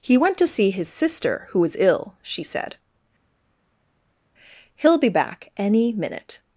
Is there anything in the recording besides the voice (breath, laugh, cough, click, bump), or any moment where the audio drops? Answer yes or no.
no